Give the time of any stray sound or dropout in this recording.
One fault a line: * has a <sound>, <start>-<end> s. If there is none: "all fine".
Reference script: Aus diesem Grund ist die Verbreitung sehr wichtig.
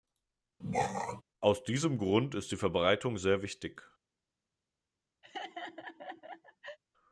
* has a throat clearing, 0.6-1.2 s
* has a laugh, 5.2-6.8 s